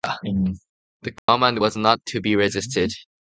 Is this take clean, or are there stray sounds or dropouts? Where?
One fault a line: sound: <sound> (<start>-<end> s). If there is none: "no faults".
sound: dropout (1.2-1.3 s)